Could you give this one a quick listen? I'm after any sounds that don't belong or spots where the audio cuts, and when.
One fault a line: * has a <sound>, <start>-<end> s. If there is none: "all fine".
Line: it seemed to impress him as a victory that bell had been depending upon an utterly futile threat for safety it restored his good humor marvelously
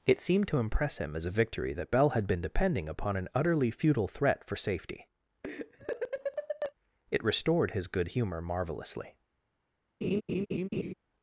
* has a laugh, 5.4-6.7 s
* has a laugh, 10.0-10.9 s